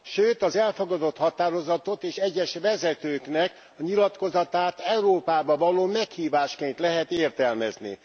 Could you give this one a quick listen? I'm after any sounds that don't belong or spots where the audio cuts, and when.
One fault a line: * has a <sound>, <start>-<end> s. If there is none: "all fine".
all fine